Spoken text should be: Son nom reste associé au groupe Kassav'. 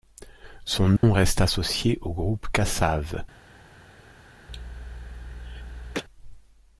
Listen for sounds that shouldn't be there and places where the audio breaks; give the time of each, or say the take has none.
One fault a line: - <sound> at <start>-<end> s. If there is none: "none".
- dropout at 1.0-1.0 s
- cough at 4.5-6.0 s